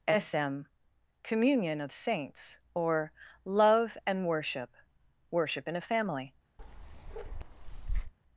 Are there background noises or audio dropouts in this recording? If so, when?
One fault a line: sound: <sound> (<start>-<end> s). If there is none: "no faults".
sound: bark (6.6-8.1 s)